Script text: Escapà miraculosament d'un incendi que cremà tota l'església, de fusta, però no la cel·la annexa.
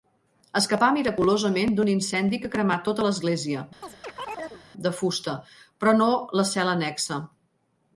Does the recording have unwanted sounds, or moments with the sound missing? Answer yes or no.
yes